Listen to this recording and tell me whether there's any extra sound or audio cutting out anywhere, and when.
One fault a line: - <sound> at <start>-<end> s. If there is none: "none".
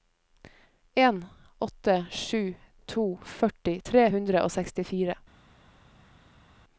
none